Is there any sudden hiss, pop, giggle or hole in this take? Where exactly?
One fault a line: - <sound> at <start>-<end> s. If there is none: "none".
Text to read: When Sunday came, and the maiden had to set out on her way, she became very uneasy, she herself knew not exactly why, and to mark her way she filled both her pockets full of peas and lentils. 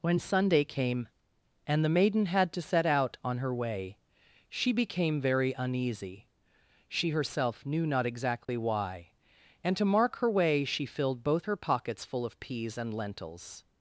- dropout at 8.4-8.5 s